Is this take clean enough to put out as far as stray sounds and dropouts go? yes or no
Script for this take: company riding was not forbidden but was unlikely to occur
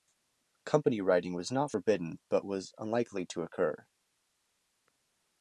yes